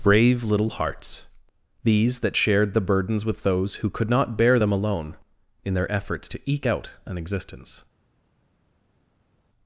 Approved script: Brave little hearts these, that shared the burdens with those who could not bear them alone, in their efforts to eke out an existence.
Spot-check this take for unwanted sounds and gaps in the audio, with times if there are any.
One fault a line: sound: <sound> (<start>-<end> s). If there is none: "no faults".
no faults